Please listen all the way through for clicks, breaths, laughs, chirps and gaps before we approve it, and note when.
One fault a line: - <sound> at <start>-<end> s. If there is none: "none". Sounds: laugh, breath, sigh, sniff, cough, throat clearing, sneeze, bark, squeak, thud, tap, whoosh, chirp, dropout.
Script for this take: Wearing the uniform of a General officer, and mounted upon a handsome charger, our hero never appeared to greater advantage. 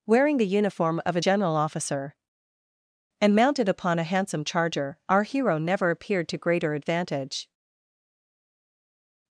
none